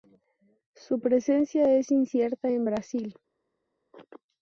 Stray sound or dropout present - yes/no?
no